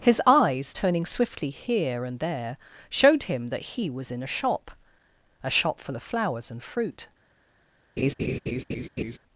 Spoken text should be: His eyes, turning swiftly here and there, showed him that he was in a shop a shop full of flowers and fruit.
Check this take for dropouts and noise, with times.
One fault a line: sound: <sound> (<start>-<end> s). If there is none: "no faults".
sound: laugh (8.0-9.2 s)